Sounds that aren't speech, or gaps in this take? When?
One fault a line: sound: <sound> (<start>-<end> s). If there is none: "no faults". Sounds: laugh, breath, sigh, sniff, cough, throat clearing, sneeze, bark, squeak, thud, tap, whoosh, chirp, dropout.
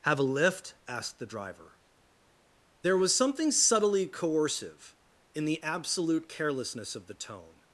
no faults